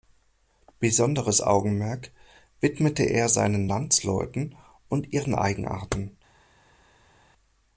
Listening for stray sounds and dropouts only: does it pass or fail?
pass